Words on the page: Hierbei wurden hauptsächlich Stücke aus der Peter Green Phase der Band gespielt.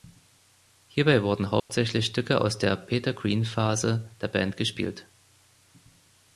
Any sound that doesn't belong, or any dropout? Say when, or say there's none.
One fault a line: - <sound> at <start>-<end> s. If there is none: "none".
- dropout at 1.6-1.7 s